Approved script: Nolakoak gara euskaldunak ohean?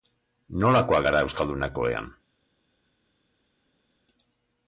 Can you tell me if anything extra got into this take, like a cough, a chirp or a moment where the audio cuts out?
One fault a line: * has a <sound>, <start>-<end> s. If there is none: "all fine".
all fine